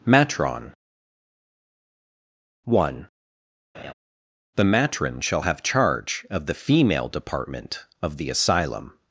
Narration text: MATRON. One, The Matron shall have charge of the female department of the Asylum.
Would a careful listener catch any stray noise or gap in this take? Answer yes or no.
yes